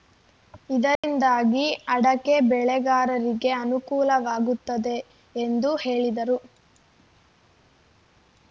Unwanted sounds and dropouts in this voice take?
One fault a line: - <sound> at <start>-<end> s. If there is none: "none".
- dropout at 1.0-1.0 s